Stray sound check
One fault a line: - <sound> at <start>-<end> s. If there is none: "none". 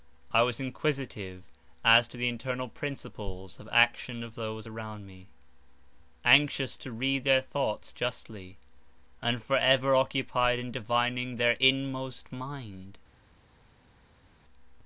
none